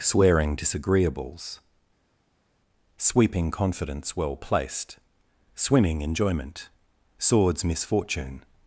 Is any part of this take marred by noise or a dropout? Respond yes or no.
no